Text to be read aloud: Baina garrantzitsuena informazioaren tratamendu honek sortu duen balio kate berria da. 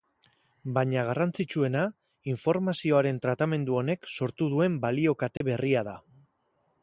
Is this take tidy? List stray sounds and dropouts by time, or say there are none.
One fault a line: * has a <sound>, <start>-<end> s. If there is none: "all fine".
* has a dropout, 5.4-5.4 s